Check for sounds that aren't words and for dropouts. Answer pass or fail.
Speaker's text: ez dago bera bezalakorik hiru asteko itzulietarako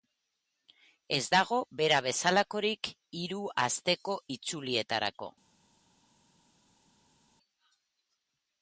pass